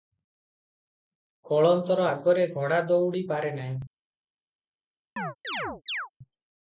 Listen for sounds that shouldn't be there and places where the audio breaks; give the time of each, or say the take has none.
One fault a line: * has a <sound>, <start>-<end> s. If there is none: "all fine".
* has a chirp, 5.2-6.1 s